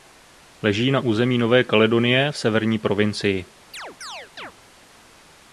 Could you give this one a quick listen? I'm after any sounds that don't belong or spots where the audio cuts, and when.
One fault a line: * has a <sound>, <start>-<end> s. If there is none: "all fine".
* has a chirp, 3.7-4.5 s